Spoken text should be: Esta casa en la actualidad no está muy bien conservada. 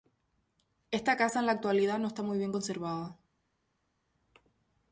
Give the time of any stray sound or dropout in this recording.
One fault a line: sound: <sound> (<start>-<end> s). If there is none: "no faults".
no faults